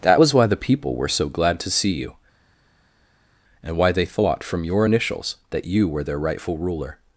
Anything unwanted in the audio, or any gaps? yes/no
no